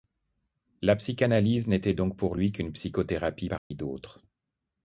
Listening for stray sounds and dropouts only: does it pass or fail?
fail